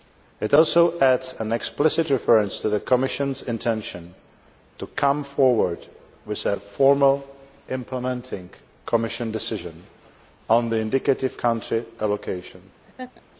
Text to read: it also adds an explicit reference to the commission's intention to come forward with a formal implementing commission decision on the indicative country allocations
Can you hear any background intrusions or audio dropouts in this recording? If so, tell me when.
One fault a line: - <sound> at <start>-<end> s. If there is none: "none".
- laugh at 12.8-13.2 s